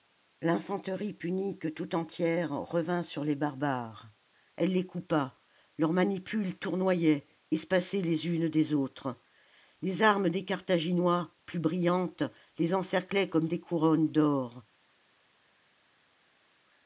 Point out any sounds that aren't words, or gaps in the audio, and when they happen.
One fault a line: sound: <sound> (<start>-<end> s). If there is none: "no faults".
no faults